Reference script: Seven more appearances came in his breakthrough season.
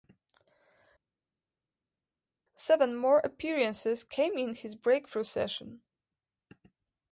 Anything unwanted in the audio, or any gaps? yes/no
no